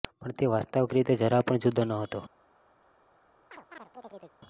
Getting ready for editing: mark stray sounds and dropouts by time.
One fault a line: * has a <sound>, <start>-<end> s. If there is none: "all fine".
* has a chirp, 3.5-4.4 s